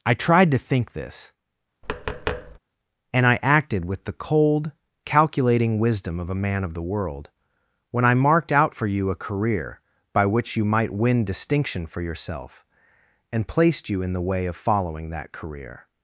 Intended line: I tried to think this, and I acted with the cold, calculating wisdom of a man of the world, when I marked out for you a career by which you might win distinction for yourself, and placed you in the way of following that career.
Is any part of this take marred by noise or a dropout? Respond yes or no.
yes